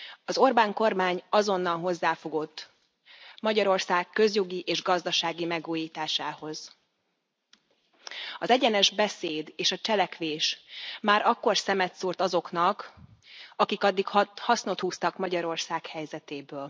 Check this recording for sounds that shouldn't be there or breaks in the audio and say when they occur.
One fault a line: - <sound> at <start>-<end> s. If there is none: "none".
none